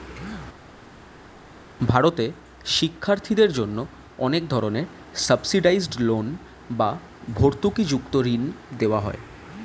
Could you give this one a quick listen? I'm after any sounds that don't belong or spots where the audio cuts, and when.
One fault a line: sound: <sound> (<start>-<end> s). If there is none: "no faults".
no faults